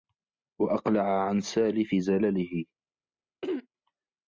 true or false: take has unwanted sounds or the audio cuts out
true